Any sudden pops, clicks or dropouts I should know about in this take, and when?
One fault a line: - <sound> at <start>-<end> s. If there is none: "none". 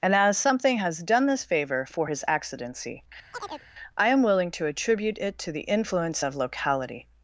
- chirp at 3.3-3.7 s